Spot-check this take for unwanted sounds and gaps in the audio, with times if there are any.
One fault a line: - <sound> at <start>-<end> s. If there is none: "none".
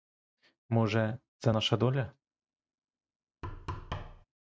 - thud at 3.4-4.3 s